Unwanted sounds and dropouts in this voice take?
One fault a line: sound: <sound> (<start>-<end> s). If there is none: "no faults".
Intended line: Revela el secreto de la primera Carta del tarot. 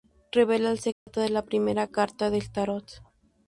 sound: dropout (0.9-1.1 s)